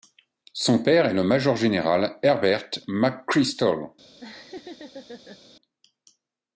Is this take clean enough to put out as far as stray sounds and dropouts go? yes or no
no